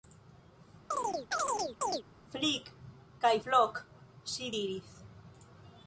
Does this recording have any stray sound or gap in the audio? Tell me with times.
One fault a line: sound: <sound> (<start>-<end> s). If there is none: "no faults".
sound: chirp (0.9-2.0 s)